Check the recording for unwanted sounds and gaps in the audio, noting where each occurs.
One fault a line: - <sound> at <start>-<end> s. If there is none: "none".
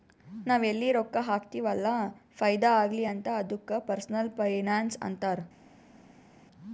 none